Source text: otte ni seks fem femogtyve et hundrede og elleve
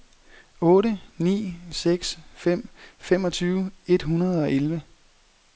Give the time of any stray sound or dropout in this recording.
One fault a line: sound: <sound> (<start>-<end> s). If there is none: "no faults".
no faults